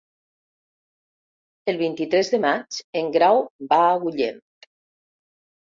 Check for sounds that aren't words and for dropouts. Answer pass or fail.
pass